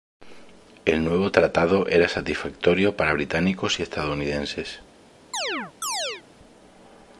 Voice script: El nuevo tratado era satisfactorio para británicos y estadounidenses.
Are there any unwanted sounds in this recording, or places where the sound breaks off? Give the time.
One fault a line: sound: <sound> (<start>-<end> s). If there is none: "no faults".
sound: chirp (5.3-6.2 s)